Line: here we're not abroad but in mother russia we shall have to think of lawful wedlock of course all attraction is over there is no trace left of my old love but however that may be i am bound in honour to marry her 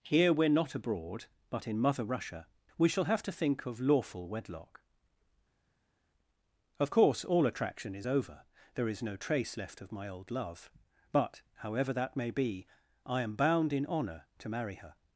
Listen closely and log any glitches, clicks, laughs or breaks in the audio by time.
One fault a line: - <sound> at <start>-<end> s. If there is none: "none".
none